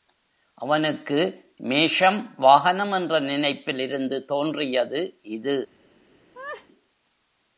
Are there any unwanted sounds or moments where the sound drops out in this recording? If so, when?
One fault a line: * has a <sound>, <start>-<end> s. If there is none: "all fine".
* has a laugh, 6.3-6.7 s